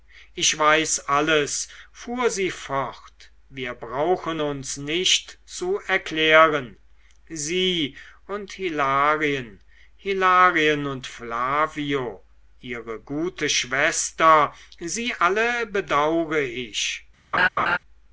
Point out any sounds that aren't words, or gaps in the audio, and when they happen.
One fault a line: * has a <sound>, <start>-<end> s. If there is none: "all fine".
* has a laugh, 17.3-17.8 s